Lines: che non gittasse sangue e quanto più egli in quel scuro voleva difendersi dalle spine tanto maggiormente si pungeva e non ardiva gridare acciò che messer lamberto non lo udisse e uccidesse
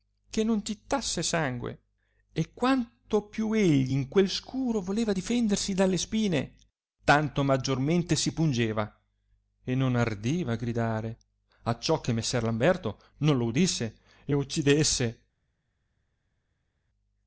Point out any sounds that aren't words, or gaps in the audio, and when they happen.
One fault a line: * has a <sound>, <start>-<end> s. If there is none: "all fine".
all fine